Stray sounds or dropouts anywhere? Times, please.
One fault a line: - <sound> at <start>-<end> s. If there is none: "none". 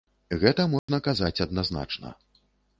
- dropout at 0.8-0.9 s